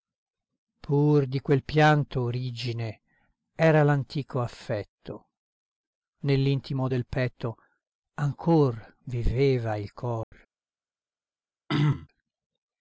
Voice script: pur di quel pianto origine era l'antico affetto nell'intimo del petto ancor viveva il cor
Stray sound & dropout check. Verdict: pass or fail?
fail